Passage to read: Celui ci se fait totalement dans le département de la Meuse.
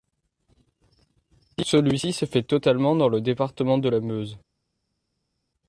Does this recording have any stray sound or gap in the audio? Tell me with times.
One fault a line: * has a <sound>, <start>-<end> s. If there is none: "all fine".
all fine